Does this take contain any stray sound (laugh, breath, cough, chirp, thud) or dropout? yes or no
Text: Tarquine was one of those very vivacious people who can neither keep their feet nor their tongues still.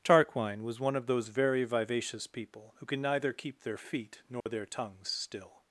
yes